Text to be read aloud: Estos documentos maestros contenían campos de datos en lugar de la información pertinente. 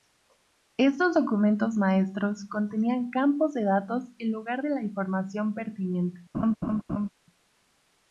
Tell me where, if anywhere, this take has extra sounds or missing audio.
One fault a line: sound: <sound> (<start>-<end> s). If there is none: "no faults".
sound: laugh (6.3-7.1 s)